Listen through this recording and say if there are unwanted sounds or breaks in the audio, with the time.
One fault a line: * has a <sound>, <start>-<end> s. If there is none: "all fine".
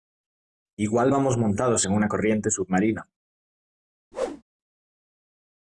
* has a whoosh, 4.1-4.4 s